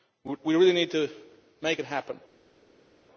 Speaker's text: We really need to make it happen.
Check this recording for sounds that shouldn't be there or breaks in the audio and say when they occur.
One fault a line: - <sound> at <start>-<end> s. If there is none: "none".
none